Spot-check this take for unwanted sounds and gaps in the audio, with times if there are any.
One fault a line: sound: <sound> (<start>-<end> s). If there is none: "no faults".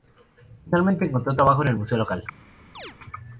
sound: chirp (2.7-2.9 s)